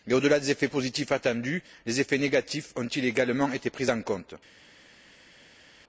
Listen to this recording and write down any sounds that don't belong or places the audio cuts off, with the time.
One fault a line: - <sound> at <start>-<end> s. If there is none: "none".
none